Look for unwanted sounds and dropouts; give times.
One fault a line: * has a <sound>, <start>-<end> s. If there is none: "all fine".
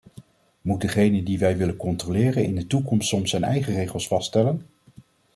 all fine